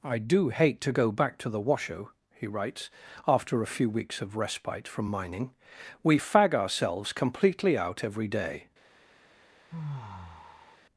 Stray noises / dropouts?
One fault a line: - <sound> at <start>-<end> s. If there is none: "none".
- sigh at 9.7-10.8 s